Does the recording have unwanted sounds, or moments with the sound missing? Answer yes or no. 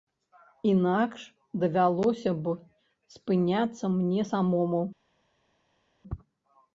no